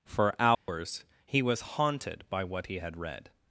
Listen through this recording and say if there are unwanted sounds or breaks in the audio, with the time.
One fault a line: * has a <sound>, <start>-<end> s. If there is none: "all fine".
* has a dropout, 0.5-0.7 s